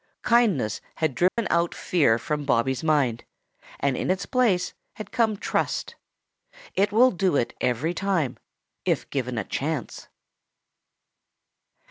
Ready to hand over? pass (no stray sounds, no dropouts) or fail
fail